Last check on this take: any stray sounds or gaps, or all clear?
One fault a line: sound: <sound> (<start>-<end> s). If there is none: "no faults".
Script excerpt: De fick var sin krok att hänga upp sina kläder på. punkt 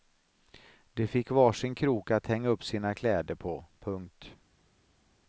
no faults